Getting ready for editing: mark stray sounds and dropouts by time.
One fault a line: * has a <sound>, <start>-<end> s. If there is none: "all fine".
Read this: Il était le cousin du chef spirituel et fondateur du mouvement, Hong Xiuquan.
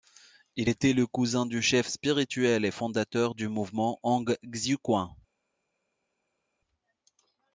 all fine